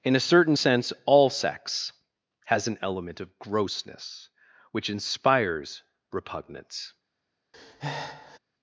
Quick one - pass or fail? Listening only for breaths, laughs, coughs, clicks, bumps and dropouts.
fail